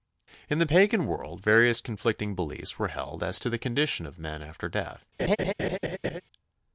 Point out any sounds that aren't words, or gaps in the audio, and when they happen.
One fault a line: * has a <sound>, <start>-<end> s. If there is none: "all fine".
* has a laugh, 5.2-6.2 s